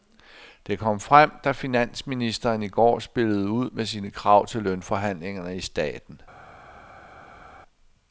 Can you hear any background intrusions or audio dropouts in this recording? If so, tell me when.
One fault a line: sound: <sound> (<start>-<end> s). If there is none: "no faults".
no faults